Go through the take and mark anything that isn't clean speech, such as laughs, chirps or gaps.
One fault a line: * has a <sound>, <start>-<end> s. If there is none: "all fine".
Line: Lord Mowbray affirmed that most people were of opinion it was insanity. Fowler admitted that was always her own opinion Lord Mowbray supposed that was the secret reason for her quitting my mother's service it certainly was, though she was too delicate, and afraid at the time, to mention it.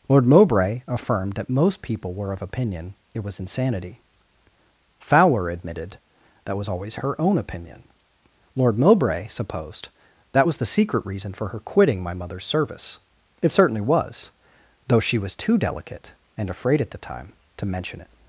all fine